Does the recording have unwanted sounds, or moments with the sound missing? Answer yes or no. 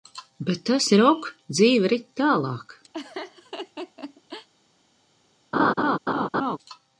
yes